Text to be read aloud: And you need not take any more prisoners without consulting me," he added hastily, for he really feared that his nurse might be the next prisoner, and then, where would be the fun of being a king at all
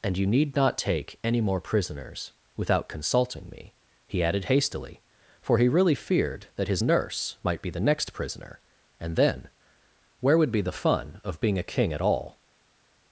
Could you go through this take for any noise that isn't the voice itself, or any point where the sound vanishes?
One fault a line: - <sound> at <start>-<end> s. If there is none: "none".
none